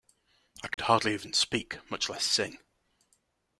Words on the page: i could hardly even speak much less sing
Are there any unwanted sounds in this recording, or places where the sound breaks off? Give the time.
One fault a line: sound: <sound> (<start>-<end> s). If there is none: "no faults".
sound: dropout (0.7-0.8 s)